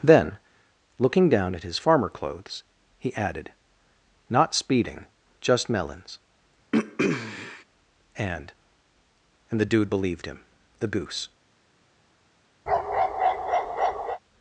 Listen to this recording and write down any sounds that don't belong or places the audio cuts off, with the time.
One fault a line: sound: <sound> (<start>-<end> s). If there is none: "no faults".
sound: throat clearing (6.7-7.6 s)
sound: bark (12.7-14.2 s)